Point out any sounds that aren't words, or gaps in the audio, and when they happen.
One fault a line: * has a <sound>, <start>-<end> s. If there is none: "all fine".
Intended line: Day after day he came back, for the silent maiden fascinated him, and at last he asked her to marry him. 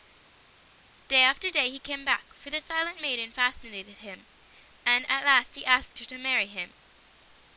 all fine